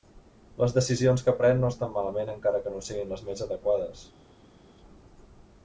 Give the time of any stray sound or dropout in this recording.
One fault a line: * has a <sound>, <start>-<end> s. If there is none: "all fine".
all fine